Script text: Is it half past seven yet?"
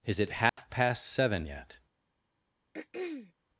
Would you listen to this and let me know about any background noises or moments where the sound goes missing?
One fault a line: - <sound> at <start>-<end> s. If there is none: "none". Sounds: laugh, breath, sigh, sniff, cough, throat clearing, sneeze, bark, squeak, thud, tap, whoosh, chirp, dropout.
- dropout at 0.5-0.6 s
- throat clearing at 2.7-3.3 s